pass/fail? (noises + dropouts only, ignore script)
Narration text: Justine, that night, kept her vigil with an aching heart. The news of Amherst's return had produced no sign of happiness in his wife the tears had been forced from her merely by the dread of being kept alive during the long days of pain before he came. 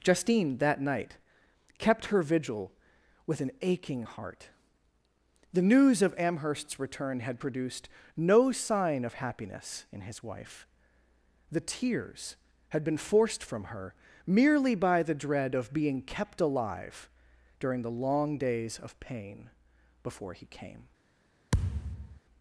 fail